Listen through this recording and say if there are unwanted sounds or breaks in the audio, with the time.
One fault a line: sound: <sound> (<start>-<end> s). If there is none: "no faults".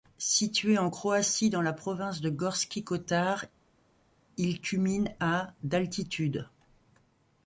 no faults